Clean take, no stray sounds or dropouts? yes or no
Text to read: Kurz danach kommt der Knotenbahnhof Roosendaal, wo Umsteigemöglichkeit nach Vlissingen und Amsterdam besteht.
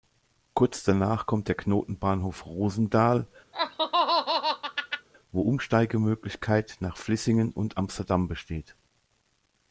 no